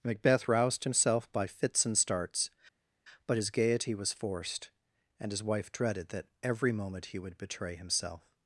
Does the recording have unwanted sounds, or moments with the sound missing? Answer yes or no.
no